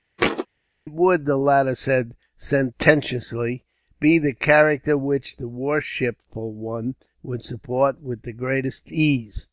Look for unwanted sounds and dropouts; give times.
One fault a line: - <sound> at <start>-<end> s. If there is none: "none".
- thud at 0.2-0.5 s